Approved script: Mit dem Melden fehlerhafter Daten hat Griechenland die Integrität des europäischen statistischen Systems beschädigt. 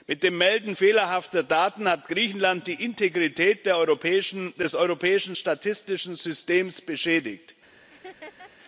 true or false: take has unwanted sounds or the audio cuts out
true